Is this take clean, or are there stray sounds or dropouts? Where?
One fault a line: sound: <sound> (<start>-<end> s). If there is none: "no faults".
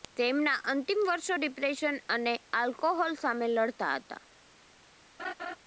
sound: laugh (5.2-5.6 s)